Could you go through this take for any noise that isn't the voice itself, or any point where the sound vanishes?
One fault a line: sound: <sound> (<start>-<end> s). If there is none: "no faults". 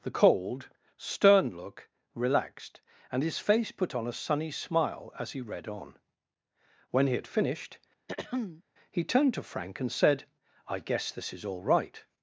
sound: throat clearing (8.1-8.6 s)